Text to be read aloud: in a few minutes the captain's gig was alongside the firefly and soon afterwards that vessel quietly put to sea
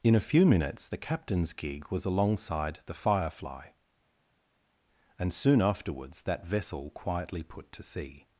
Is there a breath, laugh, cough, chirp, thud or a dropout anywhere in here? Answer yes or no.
no